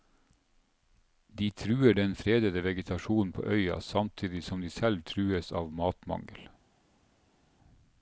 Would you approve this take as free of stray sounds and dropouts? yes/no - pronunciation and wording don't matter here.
yes